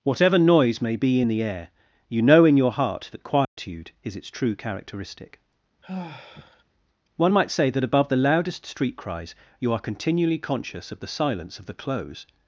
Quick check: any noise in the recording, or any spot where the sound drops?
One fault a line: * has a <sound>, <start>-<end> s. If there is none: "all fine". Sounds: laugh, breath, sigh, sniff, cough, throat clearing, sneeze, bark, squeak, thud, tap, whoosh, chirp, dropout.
* has a dropout, 3.4-3.6 s
* has a sigh, 5.8-6.6 s